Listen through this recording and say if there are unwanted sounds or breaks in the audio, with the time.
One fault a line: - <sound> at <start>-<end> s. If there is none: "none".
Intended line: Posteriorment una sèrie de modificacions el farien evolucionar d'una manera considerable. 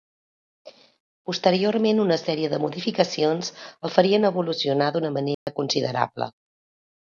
- dropout at 5.3-5.5 s